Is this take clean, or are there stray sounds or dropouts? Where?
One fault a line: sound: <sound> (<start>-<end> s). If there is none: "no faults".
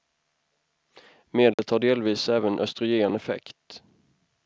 sound: dropout (1.5-1.6 s)